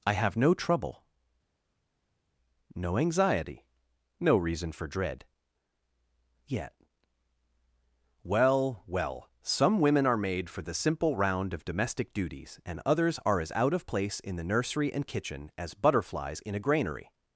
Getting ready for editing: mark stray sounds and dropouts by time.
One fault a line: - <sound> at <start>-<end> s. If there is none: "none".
none